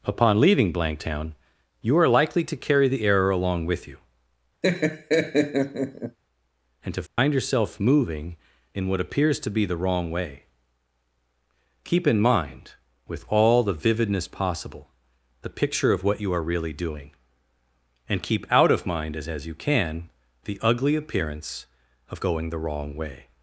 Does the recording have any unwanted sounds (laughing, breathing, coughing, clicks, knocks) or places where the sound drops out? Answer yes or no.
yes